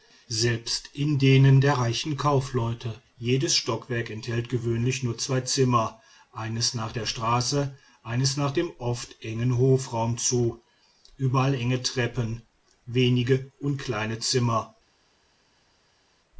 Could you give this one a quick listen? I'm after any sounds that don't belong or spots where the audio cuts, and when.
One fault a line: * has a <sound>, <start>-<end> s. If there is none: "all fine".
all fine